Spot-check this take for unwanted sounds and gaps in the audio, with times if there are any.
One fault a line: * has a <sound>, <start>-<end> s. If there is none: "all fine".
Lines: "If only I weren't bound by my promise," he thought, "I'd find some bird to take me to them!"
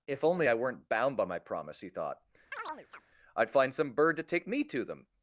* has a chirp, 2.5-3.0 s